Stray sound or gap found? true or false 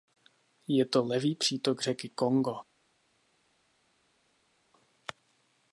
false